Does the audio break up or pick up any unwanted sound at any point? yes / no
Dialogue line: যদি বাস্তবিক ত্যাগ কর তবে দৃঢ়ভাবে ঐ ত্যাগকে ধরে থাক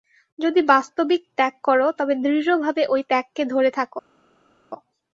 no